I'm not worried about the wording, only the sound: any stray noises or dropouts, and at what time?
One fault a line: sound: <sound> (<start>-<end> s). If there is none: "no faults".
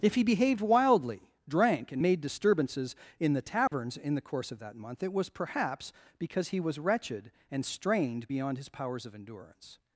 sound: dropout (3.7-3.7 s)